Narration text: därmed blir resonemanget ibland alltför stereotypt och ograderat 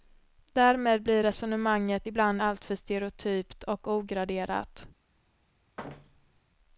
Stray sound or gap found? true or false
true